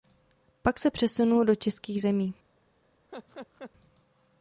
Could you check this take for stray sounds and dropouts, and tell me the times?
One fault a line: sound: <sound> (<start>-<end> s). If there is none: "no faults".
sound: laugh (3.1-3.7 s)